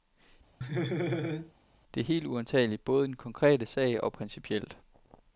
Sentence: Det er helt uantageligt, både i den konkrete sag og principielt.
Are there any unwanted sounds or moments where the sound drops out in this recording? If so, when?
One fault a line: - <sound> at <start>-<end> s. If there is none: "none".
- laugh at 0.6-1.5 s